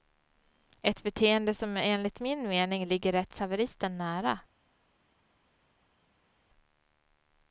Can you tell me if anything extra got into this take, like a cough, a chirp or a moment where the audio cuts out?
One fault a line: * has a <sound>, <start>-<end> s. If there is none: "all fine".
all fine